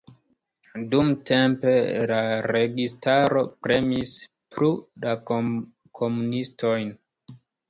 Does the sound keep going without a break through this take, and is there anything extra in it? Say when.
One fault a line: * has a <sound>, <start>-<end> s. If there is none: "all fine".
all fine